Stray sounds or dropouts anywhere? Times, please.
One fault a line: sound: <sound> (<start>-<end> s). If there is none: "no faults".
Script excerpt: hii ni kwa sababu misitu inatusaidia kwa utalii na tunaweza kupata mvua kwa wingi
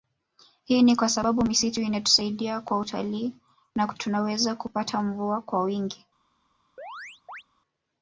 sound: chirp (6.8-7.4 s)